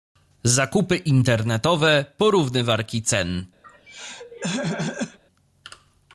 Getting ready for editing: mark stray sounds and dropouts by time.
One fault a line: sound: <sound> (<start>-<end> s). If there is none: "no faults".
sound: throat clearing (3.6-5.2 s)